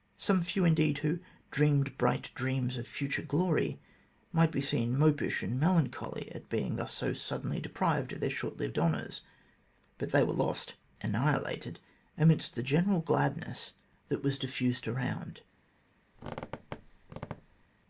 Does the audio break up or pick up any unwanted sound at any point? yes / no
yes